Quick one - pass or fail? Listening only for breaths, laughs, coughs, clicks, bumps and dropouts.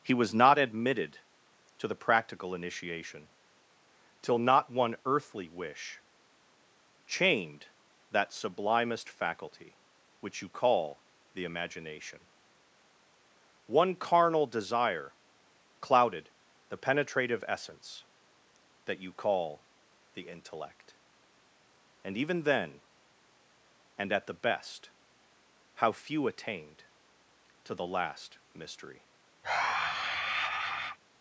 fail